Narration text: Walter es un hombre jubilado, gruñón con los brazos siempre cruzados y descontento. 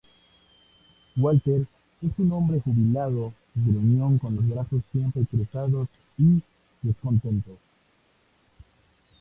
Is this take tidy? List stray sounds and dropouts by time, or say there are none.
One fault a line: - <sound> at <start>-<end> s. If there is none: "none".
none